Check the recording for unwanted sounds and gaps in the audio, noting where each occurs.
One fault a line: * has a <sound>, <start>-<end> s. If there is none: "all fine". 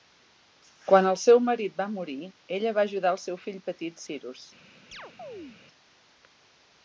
* has a chirp, 4.9-5.6 s